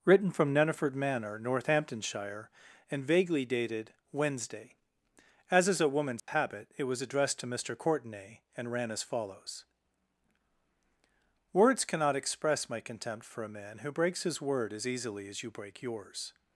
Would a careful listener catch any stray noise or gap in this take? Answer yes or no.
yes